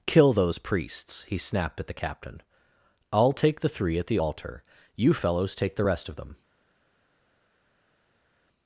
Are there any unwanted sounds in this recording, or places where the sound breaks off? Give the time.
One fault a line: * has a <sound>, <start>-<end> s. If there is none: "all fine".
all fine